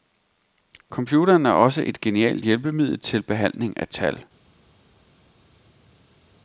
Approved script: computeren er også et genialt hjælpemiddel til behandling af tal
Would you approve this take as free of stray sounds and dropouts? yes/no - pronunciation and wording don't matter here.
yes